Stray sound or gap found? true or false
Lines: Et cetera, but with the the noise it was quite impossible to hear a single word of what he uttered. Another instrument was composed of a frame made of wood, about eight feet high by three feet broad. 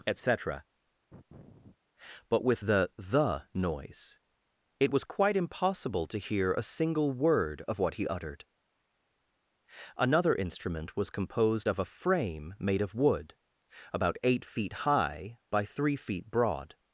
true